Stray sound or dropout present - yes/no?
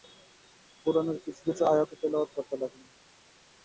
no